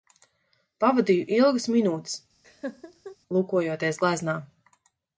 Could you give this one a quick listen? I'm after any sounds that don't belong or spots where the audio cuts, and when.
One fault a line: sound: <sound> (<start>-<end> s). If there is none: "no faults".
sound: laugh (2.4-3.2 s)